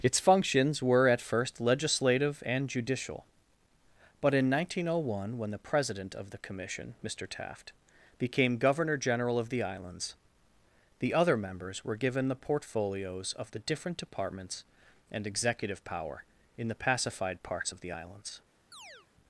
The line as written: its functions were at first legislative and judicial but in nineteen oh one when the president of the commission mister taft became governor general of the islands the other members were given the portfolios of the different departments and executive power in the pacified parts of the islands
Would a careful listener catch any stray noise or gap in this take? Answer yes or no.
yes